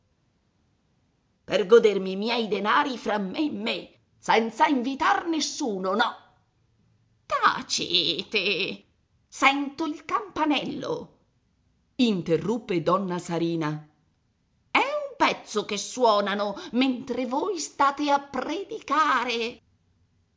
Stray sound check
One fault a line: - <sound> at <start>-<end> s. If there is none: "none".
none